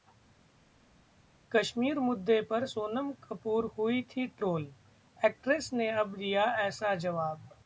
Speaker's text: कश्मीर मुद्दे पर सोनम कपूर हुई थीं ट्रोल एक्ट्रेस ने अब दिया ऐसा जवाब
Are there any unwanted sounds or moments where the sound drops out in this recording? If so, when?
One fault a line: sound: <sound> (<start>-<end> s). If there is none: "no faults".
no faults